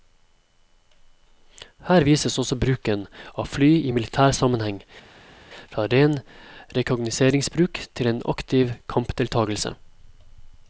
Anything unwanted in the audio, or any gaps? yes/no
no